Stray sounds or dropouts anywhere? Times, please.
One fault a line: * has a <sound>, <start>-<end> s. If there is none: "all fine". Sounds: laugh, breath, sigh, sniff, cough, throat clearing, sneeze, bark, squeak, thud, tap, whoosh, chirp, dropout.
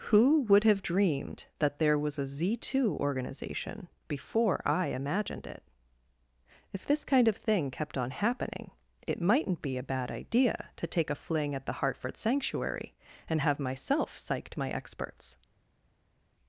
all fine